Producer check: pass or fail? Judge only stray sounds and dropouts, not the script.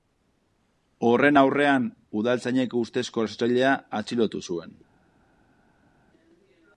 pass